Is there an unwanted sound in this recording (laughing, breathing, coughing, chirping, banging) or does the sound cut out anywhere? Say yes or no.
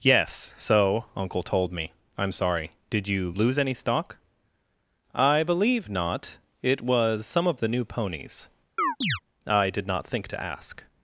yes